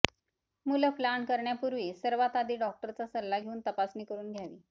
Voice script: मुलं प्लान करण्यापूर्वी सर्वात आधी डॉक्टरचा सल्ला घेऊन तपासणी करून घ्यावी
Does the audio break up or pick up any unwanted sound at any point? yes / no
no